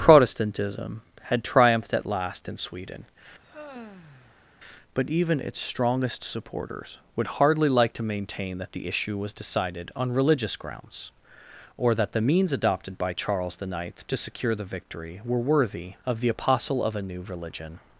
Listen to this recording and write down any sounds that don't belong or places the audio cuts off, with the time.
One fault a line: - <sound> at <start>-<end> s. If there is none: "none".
- sigh at 3.4-4.5 s